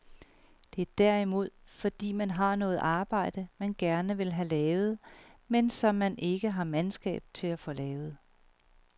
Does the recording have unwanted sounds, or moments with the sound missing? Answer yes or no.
no